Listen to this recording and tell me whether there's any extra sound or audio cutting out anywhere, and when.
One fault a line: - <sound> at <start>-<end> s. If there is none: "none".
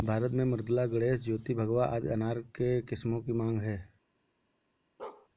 - bark at 5.0-5.3 s